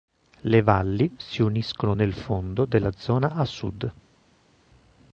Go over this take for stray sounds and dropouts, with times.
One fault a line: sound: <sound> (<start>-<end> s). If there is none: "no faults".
no faults